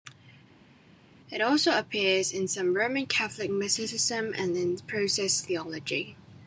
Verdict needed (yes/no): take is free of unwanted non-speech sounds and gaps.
yes